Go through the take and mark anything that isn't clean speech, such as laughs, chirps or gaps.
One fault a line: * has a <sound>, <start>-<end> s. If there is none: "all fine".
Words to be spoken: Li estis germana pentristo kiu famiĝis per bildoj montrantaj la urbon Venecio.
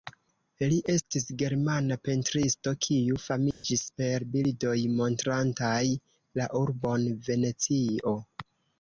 * has a dropout, 3.5-3.6 s